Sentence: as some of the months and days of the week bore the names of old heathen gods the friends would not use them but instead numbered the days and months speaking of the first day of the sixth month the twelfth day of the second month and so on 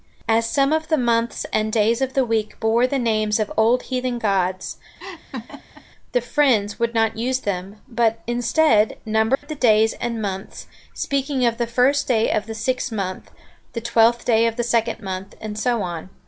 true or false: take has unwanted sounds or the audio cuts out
true